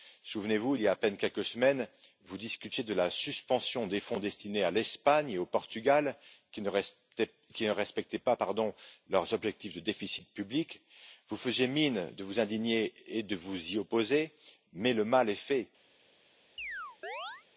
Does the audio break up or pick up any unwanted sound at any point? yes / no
yes